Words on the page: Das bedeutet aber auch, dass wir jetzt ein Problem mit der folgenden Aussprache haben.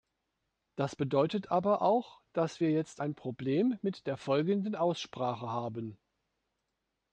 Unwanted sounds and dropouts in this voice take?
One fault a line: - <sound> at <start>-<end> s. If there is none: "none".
none